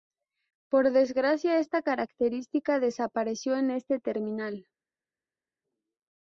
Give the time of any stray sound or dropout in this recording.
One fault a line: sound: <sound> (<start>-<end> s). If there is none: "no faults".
no faults